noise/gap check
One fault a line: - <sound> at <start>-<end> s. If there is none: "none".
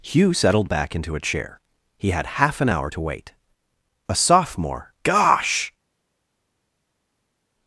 none